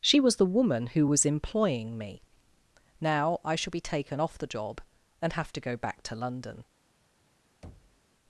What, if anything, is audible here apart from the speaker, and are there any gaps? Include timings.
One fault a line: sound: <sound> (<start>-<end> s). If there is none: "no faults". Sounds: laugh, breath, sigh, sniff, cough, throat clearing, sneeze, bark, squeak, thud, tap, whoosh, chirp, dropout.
sound: thud (7.6-8.0 s)